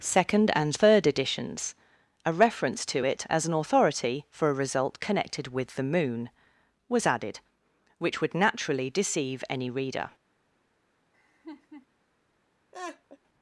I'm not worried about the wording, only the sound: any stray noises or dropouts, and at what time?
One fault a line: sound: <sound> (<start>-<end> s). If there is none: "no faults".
sound: laugh (11.1-11.9 s)
sound: laugh (12.7-13.2 s)